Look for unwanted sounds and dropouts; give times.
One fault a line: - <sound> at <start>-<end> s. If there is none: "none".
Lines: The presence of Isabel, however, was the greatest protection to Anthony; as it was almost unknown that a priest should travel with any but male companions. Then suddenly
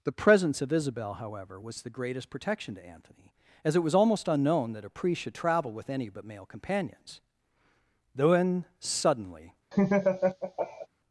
- laugh at 9.7-10.9 s